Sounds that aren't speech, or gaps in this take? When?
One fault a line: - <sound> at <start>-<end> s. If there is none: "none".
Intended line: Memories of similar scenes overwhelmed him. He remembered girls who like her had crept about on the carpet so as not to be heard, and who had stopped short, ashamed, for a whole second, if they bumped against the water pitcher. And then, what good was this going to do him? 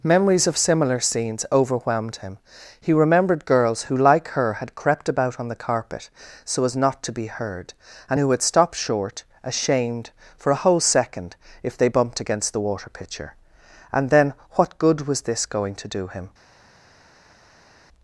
none